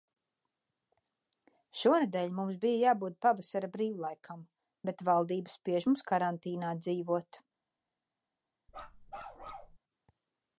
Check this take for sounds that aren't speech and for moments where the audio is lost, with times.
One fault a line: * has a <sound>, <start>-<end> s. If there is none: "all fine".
* has a bark, 8.7-9.8 s